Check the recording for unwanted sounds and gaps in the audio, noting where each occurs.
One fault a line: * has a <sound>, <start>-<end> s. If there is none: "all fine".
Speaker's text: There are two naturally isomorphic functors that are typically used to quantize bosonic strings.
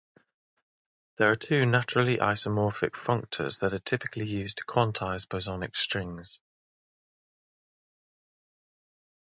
all fine